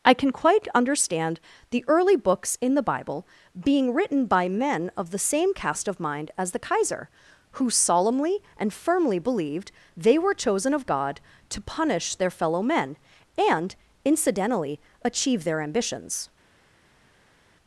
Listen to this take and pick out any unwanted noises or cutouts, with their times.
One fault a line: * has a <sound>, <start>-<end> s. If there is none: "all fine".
all fine